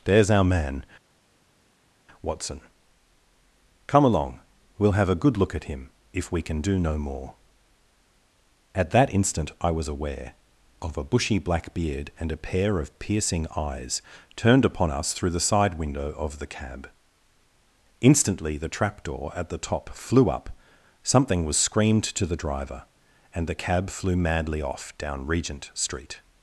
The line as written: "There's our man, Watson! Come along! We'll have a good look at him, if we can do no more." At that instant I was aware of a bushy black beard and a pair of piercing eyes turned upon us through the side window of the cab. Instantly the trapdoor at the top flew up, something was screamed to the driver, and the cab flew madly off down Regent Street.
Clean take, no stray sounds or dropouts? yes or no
yes